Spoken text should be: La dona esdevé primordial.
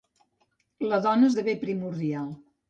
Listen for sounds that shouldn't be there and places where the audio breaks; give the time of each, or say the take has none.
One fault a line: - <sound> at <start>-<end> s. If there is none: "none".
none